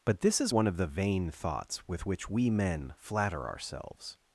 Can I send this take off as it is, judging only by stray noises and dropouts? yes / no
yes